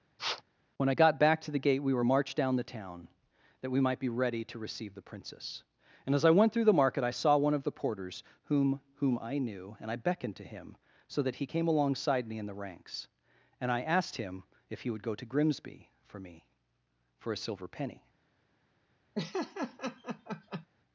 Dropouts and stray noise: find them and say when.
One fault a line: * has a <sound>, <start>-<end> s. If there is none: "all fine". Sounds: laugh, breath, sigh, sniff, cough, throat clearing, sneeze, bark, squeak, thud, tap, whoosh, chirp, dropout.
* has a sniff, 0.2-0.4 s
* has a laugh, 19.2-20.7 s